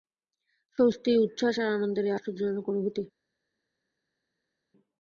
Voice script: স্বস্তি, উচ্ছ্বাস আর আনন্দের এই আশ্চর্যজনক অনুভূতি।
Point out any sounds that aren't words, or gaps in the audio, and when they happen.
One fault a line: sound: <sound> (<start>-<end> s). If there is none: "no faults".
no faults